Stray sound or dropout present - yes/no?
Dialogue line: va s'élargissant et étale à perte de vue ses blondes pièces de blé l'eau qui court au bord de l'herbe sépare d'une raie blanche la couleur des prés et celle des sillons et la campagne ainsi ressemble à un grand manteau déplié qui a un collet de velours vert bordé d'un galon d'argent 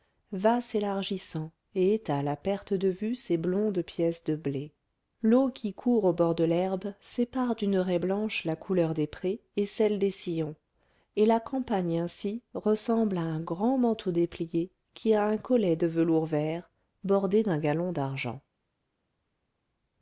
no